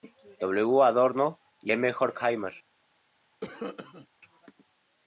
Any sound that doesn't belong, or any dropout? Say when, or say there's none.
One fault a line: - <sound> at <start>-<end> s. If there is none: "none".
- cough at 3.4-4.1 s